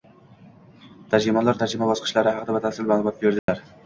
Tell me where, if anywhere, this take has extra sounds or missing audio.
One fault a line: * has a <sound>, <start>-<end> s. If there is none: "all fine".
* has a dropout, 3.4-3.5 s